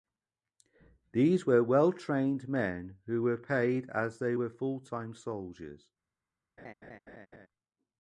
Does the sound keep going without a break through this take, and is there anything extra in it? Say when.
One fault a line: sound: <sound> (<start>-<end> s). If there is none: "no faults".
sound: laugh (6.6-7.5 s)